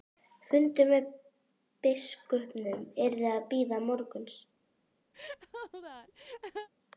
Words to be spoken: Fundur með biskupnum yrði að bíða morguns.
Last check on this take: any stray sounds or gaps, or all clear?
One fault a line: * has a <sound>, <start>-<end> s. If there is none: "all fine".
* has a laugh, 5.1-6.7 s